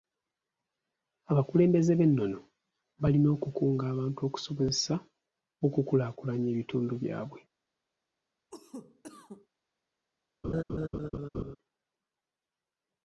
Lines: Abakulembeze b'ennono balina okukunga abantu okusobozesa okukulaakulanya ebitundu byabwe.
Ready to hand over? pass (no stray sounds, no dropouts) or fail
fail